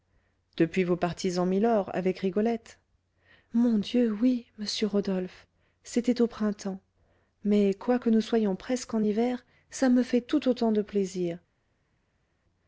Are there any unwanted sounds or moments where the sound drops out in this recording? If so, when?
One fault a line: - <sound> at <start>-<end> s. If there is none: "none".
none